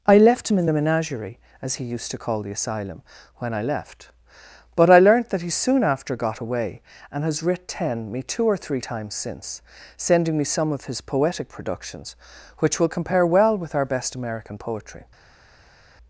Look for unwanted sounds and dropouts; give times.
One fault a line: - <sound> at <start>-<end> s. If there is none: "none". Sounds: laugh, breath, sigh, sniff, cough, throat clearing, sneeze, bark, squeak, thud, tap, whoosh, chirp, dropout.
none